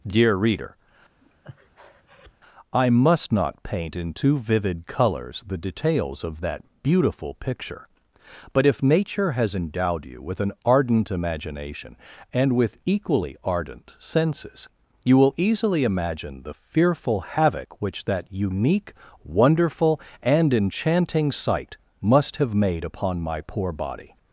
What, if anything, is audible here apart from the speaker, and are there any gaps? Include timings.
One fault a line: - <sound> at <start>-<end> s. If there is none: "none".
- breath at 1.2-2.3 s